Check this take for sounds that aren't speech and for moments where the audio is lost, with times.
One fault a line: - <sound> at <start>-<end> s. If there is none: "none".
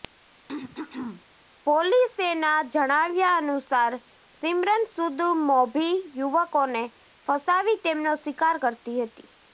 - throat clearing at 0.5-1.2 s